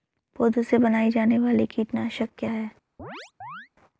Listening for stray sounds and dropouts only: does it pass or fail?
fail